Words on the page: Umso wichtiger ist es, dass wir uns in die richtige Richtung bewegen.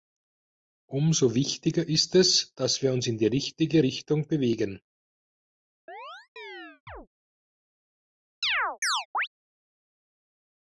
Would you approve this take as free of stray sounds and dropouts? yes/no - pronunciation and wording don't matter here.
no